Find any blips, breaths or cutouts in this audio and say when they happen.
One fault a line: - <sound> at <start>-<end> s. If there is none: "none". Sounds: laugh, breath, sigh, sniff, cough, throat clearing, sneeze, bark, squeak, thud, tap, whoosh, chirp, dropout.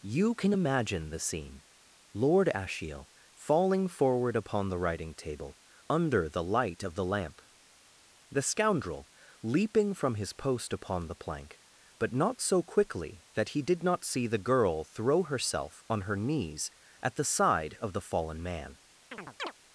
- chirp at 19.1-19.5 s